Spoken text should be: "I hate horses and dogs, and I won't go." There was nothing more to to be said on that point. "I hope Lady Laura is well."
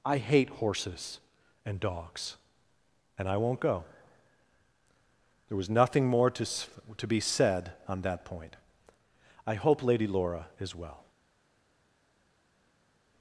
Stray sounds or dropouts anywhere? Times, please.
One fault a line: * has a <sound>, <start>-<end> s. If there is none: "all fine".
all fine